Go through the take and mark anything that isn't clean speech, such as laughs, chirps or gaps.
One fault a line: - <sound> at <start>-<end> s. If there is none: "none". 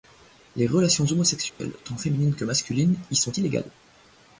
- dropout at 1.5-1.6 s